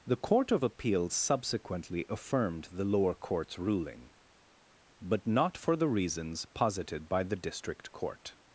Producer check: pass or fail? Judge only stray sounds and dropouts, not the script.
pass